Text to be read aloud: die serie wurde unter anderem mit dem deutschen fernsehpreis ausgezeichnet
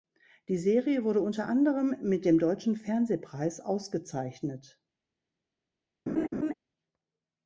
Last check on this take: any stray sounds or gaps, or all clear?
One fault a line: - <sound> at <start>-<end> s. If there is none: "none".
- laugh at 6.1-6.5 s